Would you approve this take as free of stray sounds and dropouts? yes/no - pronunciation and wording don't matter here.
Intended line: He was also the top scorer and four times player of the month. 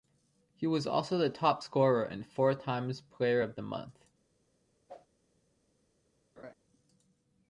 no